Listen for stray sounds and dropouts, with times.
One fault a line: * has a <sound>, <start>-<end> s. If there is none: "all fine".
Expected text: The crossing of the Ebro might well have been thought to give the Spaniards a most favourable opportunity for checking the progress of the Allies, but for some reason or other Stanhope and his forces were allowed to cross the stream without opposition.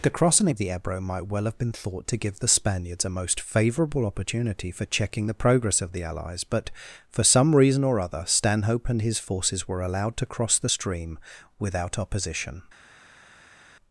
all fine